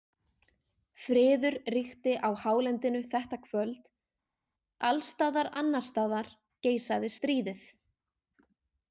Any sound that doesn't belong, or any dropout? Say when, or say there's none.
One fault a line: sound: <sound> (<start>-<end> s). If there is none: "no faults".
no faults